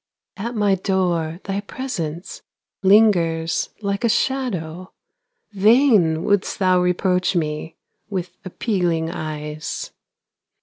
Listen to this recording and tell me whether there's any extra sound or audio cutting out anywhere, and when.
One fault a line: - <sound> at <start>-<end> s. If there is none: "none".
none